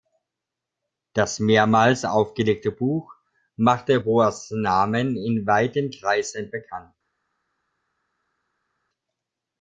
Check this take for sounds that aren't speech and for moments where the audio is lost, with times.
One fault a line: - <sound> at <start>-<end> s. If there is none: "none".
none